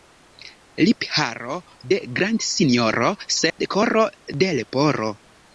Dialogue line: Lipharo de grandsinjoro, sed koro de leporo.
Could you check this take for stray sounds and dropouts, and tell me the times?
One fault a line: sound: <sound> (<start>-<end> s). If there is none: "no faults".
sound: dropout (3.5-3.6 s)